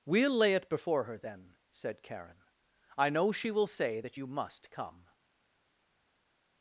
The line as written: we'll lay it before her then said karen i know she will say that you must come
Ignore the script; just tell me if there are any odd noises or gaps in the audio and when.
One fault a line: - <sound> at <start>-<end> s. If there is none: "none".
none